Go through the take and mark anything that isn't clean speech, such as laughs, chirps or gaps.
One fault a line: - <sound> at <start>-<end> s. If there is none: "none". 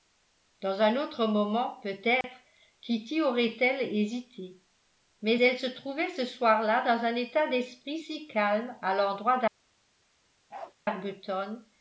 - dropout at 2.2-2.2 s
- bark at 10.5-10.7 s